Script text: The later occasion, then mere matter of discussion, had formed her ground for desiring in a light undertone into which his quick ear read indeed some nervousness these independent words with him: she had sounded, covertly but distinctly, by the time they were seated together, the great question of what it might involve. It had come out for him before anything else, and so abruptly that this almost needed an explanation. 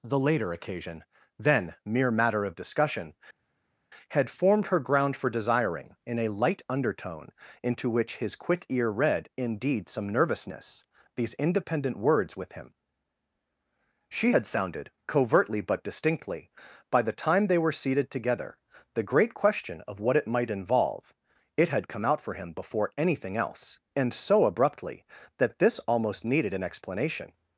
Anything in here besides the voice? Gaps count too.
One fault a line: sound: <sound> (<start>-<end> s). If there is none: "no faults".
no faults